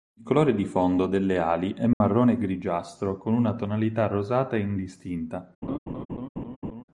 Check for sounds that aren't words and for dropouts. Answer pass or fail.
fail